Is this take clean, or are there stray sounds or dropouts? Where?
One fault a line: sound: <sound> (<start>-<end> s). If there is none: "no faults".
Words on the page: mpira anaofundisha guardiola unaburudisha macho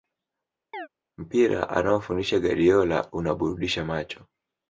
sound: chirp (0.7-0.9 s)